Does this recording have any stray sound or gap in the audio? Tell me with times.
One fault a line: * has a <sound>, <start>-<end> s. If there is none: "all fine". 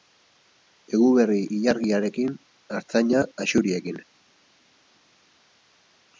all fine